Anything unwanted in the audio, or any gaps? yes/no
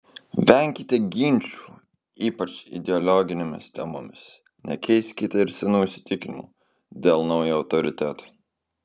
no